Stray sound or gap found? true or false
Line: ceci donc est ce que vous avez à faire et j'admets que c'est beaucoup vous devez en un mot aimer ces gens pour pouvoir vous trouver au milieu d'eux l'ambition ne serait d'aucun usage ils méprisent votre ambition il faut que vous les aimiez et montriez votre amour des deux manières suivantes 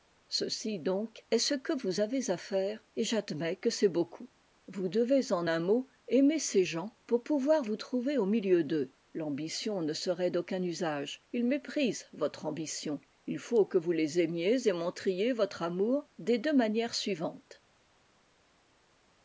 false